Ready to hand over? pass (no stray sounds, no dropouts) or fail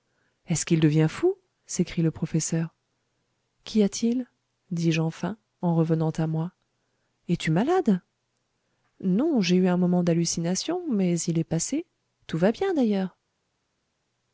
pass